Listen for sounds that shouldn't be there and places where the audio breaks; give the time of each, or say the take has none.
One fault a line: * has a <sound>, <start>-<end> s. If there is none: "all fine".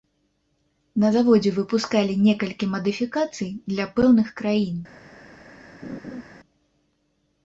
* has a laugh, 5.8-6.2 s